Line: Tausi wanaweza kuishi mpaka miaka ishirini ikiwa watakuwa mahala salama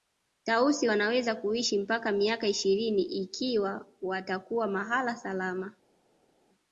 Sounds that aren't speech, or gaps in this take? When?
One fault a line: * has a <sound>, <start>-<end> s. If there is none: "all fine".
all fine